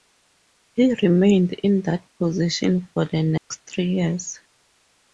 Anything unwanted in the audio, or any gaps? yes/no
yes